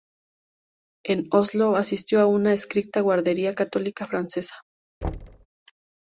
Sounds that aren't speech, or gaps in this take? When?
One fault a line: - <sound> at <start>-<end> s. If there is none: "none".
- thud at 5.0-5.5 s